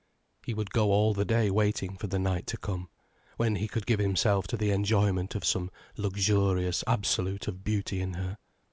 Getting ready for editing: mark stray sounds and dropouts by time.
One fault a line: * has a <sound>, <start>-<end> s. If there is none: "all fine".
all fine